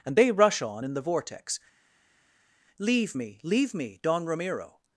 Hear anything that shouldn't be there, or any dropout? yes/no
no